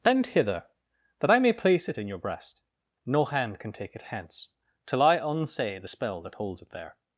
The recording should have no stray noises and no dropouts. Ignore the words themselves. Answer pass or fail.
pass